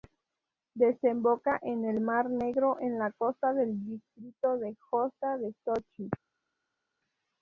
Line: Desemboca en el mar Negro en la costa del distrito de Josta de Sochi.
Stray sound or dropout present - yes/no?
no